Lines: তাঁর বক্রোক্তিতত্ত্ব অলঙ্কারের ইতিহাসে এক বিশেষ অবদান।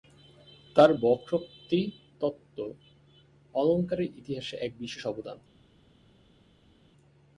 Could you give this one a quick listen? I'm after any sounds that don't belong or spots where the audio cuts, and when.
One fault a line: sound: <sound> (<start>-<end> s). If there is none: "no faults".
no faults